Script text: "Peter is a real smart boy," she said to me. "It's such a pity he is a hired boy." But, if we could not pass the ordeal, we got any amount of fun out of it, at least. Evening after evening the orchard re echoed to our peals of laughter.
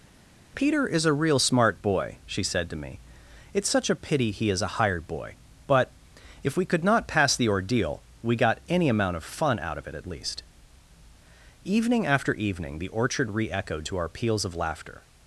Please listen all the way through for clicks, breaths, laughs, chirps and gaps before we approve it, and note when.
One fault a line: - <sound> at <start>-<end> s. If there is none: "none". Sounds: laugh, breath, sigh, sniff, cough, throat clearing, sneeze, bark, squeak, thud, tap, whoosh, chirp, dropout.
none